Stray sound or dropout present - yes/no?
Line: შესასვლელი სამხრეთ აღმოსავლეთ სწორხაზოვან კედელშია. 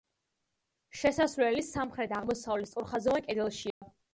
yes